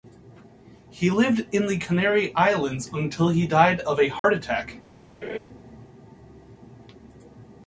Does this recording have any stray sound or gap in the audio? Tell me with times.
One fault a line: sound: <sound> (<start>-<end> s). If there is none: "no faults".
sound: dropout (4.2-4.2 s)
sound: laugh (5.2-5.4 s)